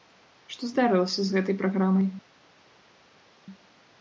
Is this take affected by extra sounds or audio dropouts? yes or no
no